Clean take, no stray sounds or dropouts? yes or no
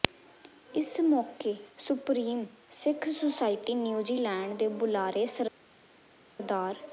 yes